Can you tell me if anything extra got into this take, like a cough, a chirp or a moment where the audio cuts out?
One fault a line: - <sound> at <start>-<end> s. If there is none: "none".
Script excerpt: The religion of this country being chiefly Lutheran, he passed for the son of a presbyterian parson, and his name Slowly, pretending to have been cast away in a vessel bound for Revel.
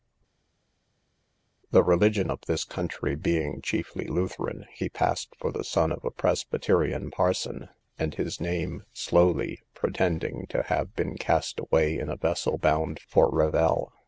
none